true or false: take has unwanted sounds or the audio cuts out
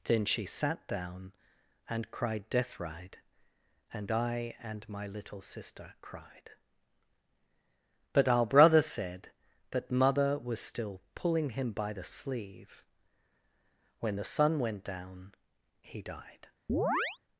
true